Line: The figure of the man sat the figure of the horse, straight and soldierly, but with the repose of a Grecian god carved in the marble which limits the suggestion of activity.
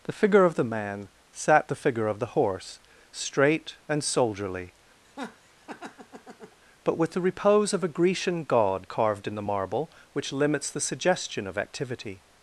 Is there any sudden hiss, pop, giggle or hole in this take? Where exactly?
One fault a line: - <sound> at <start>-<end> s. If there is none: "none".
- laugh at 5.0-6.6 s